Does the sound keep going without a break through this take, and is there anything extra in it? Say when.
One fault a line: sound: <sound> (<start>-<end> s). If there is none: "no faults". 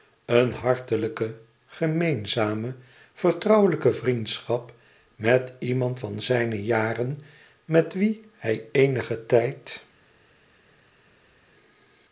no faults